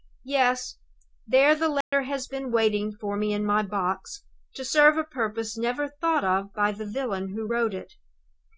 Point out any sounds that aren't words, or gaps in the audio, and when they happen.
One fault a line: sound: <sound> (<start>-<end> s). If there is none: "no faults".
sound: dropout (1.8-1.9 s)